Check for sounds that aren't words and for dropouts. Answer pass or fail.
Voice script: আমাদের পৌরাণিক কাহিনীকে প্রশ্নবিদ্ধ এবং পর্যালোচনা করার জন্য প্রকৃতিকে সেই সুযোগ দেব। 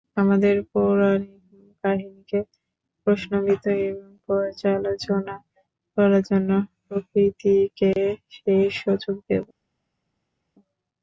pass